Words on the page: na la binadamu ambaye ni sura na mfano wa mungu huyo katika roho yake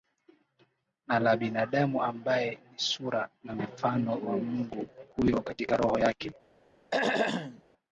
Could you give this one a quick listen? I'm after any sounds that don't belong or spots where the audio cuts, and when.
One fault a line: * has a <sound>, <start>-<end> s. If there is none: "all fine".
* has a throat clearing, 6.9-7.6 s